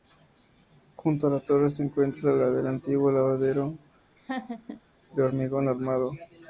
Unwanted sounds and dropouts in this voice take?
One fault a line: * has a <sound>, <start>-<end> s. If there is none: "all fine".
* has a laugh, 4.2-4.8 s